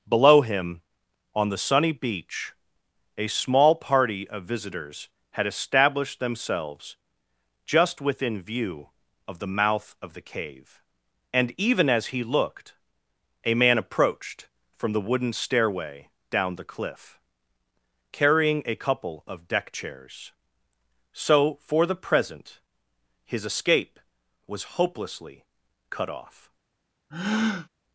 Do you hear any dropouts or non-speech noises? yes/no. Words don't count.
yes